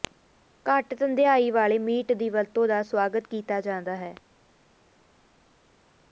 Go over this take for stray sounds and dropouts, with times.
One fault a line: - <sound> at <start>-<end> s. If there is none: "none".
none